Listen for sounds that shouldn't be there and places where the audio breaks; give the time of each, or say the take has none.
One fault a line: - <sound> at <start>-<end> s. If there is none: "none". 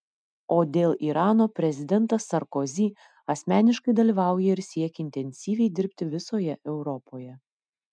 none